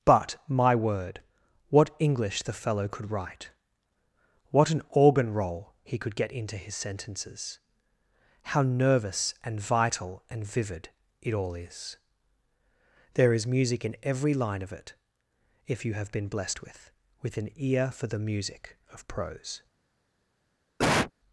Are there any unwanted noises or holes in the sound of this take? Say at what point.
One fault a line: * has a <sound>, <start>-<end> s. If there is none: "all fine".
* has a cough, 20.8-21.1 s